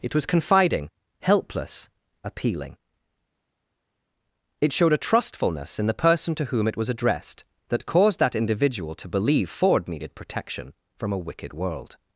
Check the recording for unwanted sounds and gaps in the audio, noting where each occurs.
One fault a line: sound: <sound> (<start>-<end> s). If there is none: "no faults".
no faults